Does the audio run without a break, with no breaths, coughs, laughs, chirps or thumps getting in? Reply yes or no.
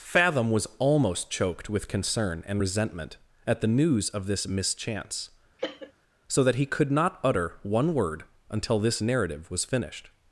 no